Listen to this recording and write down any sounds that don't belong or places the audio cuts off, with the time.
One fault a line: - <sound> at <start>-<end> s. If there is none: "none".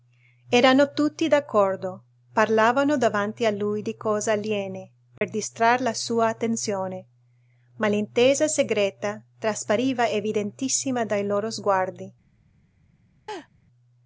- dropout at 5.2-5.2 s
- laugh at 13.3-13.5 s